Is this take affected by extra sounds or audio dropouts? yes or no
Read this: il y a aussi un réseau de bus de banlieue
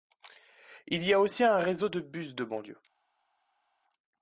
no